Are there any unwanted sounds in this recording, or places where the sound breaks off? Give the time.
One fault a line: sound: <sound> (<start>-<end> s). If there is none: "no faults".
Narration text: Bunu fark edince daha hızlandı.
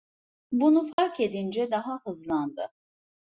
sound: dropout (0.9-1.0 s)